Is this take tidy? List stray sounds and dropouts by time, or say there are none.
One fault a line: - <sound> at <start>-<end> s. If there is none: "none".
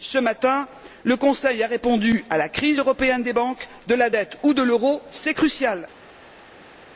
none